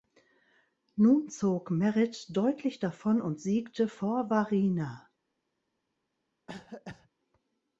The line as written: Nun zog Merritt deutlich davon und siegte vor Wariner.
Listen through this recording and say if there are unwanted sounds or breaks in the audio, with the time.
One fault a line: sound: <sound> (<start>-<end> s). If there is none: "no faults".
sound: cough (6.5-7.1 s)